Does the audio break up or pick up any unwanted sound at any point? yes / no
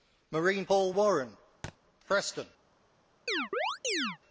yes